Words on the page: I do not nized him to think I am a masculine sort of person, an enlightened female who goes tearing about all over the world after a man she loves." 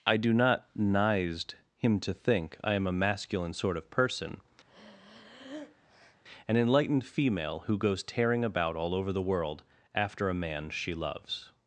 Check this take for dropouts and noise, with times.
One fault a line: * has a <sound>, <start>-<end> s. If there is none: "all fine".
* has a breath, 4.6-6.2 s